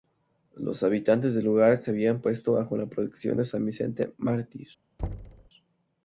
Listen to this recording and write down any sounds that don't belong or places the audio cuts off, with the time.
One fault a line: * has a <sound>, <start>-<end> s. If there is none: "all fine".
* has a thud, 5.0-5.5 s